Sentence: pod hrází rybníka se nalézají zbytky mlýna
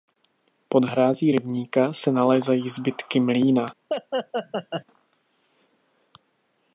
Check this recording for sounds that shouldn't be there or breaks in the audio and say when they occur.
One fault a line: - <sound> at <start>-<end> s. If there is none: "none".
- laugh at 3.9-4.8 s